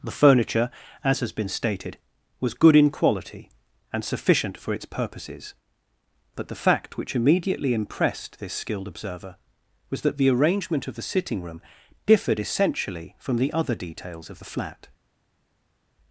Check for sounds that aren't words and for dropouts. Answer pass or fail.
pass